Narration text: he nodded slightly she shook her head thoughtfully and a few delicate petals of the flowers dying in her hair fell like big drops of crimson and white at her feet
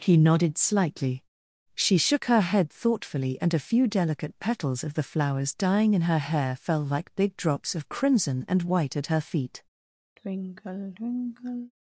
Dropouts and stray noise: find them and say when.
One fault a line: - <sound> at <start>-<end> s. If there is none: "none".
- sigh at 10.2-11.7 s